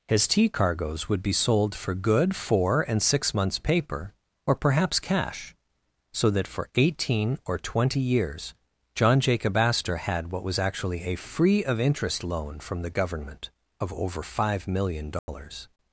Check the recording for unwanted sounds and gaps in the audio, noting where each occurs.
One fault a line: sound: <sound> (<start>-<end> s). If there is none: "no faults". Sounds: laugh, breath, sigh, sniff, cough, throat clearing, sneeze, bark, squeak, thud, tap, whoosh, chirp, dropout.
sound: dropout (15.2-15.3 s)